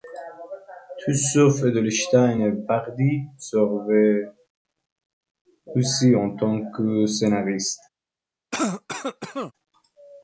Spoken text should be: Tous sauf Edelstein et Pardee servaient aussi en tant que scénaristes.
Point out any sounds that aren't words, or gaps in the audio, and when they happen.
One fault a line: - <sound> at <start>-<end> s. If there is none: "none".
- cough at 8.5-9.5 s